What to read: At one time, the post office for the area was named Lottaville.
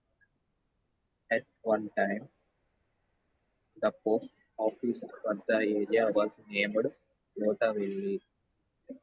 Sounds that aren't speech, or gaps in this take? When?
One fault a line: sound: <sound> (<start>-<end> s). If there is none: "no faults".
no faults